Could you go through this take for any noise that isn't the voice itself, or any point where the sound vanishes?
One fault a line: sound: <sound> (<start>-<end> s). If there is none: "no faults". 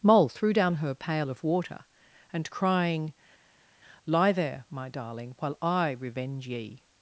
no faults